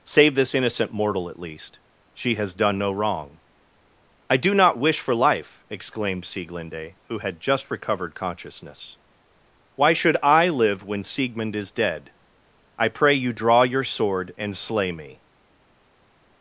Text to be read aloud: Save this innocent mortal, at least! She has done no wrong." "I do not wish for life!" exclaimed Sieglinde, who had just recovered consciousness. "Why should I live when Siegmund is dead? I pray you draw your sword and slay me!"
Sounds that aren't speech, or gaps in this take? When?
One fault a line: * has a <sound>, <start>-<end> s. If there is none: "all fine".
all fine